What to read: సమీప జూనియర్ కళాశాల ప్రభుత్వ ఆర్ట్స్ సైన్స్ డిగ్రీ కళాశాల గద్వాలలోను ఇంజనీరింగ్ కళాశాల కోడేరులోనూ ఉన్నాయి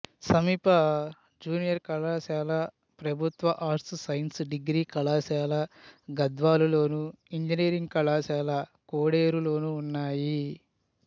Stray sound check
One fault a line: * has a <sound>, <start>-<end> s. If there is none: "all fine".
all fine